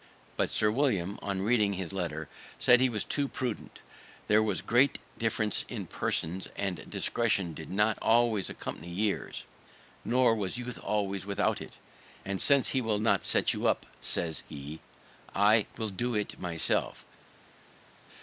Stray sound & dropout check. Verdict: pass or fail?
pass